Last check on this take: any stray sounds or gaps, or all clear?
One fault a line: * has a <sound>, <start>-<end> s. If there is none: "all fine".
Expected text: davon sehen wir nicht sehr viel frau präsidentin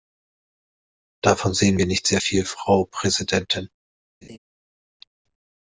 * has a laugh, 4.2-4.4 s